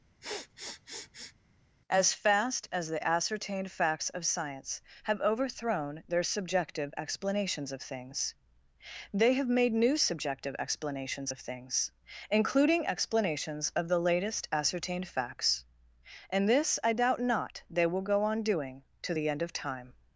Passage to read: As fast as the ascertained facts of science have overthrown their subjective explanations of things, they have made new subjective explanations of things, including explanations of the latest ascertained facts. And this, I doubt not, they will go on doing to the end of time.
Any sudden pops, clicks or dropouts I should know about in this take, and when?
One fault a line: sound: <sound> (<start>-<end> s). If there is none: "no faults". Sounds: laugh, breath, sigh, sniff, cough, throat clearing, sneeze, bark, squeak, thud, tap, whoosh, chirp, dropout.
sound: sniff (0.2-1.3 s)